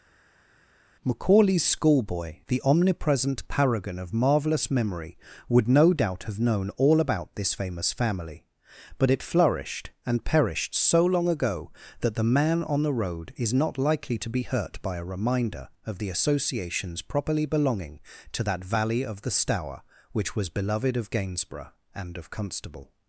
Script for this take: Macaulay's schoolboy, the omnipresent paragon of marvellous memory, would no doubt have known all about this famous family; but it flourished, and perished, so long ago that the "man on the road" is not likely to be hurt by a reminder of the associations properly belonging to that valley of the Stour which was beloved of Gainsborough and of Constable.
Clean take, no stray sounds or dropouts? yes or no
yes